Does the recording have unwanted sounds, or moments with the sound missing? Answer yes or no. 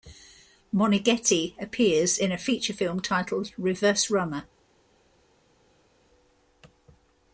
no